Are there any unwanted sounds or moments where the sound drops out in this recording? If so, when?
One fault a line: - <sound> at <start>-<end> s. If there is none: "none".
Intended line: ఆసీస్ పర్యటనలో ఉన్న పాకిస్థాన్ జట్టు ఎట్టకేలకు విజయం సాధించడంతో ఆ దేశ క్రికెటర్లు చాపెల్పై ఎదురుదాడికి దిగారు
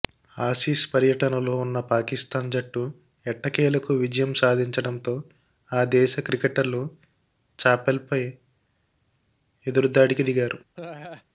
- laugh at 10.7-11.2 s